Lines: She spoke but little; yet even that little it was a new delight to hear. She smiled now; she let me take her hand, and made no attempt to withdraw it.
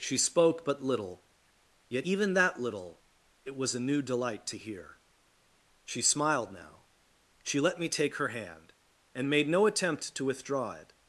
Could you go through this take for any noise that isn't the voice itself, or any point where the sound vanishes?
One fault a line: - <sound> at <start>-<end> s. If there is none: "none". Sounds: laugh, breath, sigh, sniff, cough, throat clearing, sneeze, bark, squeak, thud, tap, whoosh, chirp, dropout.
none